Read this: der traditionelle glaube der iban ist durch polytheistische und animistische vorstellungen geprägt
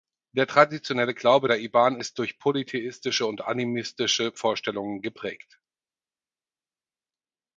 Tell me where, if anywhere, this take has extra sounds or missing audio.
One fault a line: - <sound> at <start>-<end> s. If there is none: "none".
none